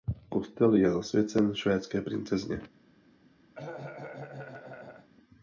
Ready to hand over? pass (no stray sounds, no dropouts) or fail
fail